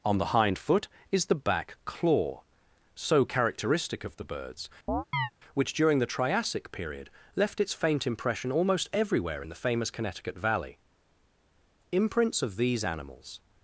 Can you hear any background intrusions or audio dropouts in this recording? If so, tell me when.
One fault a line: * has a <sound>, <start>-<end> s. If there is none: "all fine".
* has a chirp, 4.9-5.3 s